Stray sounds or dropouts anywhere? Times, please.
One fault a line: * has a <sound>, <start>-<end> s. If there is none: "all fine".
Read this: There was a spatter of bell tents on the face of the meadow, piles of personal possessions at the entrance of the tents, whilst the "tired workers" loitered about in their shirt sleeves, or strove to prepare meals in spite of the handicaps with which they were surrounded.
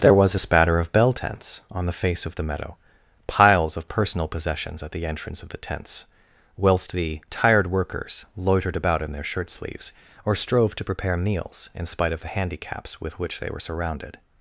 all fine